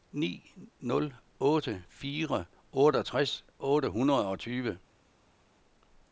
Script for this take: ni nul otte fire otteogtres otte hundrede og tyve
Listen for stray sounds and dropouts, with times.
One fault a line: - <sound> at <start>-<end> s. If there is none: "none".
none